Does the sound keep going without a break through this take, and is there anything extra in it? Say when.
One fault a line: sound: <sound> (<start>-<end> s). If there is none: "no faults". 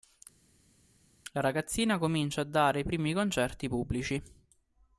no faults